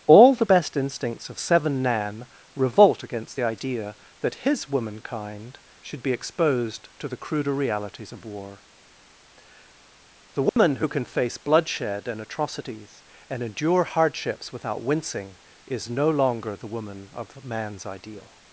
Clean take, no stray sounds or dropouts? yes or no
no